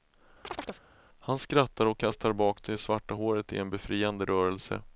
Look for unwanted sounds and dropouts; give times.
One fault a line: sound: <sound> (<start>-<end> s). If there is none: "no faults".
sound: chirp (0.4-0.8 s)